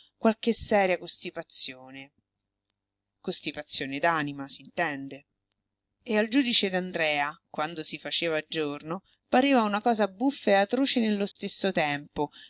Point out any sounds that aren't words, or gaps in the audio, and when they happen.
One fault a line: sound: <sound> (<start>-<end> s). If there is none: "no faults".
sound: dropout (11.3-11.4 s)